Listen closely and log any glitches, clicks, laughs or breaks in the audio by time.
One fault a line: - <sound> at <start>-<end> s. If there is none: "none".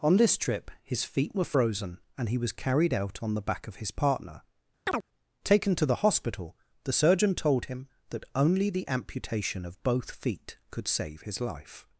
- chirp at 4.9-5.0 s